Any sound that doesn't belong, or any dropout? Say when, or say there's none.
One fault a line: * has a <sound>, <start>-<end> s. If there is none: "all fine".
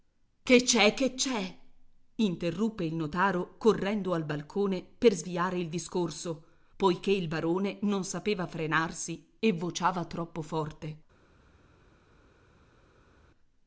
all fine